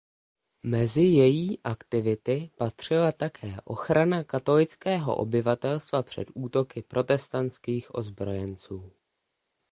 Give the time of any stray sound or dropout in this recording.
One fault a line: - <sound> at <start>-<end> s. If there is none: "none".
none